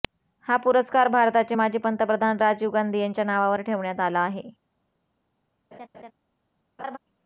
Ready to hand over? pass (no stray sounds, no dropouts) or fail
fail